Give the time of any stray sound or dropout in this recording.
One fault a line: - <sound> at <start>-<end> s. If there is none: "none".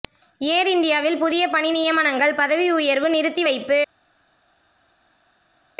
none